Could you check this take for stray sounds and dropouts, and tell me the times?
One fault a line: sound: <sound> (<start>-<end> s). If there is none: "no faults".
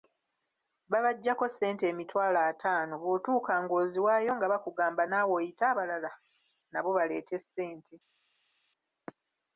no faults